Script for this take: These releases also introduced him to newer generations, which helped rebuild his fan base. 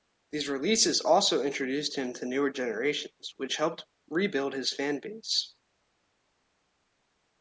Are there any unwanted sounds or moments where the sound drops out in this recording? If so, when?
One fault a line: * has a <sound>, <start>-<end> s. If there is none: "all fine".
all fine